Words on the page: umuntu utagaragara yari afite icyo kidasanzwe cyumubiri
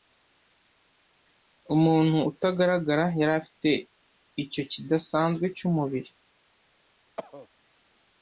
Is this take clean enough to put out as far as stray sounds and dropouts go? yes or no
no